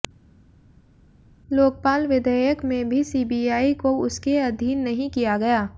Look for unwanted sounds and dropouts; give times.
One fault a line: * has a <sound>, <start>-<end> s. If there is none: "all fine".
all fine